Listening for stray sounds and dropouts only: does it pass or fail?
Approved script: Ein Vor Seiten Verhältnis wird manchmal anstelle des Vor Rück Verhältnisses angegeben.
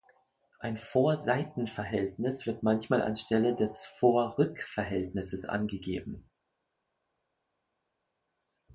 pass